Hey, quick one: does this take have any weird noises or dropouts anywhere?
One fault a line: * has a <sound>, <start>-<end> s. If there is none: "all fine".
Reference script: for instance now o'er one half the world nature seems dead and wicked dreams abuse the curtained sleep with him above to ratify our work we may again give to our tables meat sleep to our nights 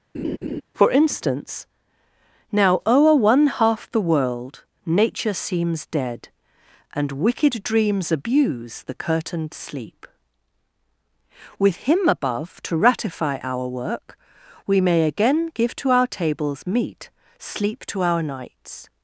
* has a laugh, 0.1-0.6 s